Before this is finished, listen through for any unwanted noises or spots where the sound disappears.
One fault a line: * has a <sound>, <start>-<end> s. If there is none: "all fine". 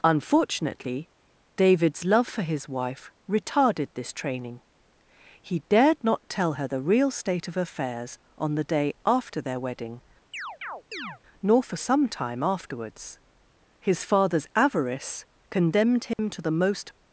* has a chirp, 10.3-11.2 s
* has a dropout, 16.1-16.2 s